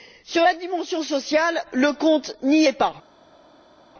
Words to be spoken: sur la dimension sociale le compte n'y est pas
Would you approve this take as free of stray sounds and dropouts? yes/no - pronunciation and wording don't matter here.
yes